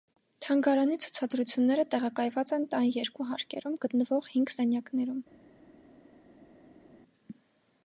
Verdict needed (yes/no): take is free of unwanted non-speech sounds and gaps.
yes